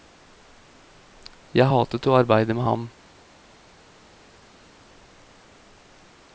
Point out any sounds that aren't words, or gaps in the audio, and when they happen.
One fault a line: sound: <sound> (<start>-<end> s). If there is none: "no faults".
no faults